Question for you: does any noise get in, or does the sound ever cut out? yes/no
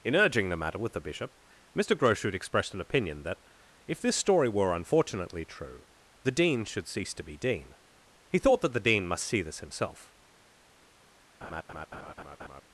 yes